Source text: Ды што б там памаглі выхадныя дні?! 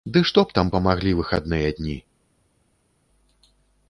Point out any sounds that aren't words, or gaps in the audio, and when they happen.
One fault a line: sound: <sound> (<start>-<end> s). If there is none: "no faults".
no faults